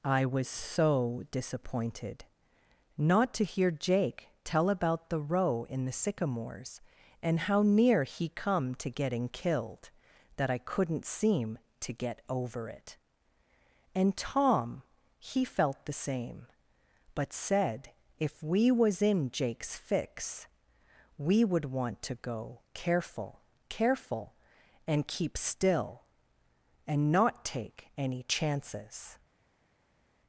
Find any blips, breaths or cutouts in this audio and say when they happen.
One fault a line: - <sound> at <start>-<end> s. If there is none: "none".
none